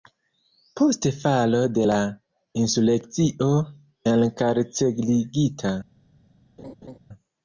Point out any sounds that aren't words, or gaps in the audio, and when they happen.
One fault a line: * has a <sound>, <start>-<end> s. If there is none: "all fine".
* has a laugh, 6.6-7.0 s